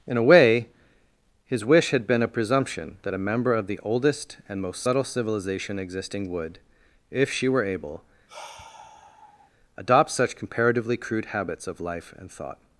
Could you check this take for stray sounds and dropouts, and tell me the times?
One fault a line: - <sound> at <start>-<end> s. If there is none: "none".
- sigh at 8.3-9.5 s